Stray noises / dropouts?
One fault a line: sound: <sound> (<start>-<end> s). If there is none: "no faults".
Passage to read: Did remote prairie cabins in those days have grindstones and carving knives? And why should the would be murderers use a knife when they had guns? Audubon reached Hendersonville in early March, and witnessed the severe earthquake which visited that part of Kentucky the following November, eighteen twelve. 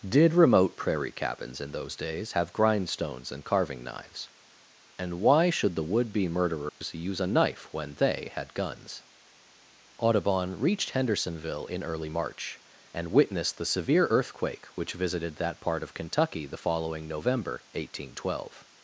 sound: dropout (6.7-6.8 s)